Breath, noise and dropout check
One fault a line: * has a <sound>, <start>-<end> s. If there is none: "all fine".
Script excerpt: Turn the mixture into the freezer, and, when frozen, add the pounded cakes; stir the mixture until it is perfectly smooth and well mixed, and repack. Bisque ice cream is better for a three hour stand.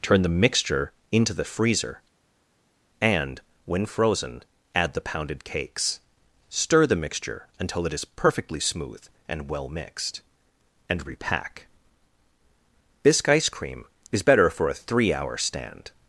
all fine